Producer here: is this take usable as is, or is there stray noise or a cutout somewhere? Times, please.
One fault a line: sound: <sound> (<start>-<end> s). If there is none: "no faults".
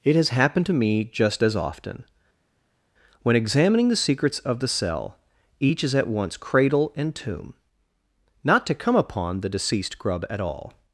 no faults